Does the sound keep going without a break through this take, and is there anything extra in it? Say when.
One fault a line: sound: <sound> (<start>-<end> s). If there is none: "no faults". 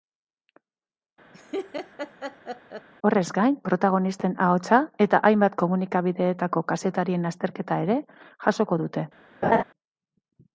sound: laugh (1.3-2.9 s)
sound: laugh (9.4-9.6 s)